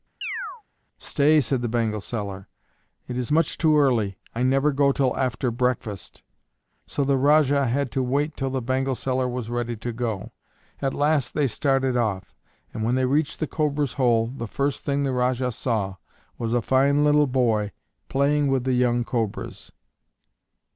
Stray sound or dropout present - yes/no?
yes